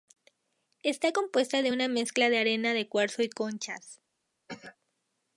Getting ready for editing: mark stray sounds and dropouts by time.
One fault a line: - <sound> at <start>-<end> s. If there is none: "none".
- cough at 4.5-4.8 s